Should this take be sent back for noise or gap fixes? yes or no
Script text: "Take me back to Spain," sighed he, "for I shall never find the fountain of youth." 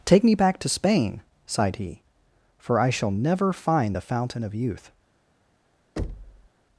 yes